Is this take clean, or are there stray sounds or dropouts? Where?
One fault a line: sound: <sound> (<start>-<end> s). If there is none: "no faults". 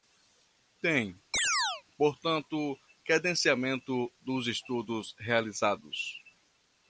sound: chirp (1.3-1.8 s)